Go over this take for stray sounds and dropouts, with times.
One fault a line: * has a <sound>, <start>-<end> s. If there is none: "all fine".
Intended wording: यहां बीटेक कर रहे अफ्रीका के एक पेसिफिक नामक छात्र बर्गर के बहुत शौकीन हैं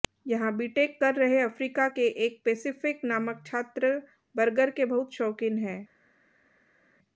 all fine